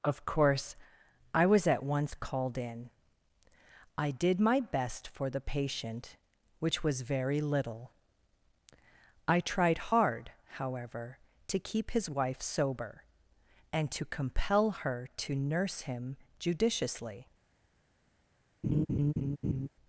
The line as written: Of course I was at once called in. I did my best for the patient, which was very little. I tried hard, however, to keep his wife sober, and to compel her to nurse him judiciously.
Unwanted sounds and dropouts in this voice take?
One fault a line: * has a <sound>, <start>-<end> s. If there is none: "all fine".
* has a laugh, 18.6-19.7 s